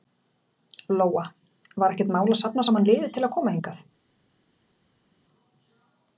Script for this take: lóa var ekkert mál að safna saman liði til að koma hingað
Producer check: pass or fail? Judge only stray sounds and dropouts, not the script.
pass